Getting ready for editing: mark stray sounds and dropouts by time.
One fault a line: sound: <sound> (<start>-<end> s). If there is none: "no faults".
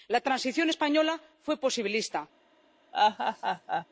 sound: laugh (2.9-3.9 s)